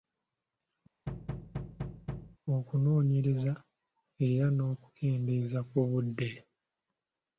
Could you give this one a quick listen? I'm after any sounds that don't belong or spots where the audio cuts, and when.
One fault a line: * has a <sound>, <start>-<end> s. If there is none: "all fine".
* has a thud, 1.1-2.4 s